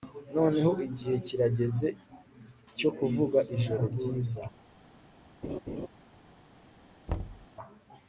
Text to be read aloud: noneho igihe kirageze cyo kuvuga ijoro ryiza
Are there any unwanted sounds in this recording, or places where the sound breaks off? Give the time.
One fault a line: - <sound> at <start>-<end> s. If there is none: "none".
- laugh at 5.4-5.9 s
- thud at 7.1-7.5 s